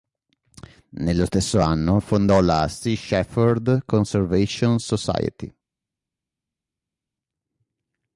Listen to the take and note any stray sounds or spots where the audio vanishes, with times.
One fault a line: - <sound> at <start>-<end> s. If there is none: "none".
none